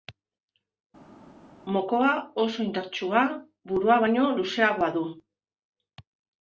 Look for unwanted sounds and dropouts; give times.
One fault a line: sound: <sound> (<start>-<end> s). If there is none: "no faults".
no faults